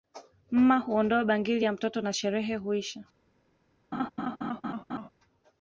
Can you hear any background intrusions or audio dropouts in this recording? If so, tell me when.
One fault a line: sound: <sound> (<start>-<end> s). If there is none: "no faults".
sound: laugh (3.9-5.1 s)